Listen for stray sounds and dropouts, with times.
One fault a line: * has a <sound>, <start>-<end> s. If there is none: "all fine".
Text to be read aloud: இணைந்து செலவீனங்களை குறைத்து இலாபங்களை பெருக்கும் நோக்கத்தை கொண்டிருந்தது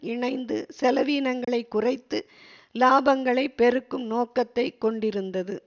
* has a dropout, 1.4-1.5 s